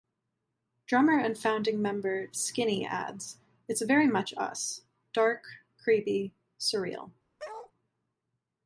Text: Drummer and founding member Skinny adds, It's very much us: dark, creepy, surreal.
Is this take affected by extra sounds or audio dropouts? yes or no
yes